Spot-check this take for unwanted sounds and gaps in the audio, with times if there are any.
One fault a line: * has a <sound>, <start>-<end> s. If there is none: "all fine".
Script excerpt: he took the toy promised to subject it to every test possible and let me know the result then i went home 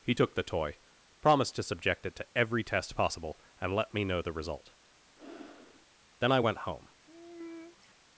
* has a breath, 5.2-5.9 s
* has a sigh, 7.0-7.9 s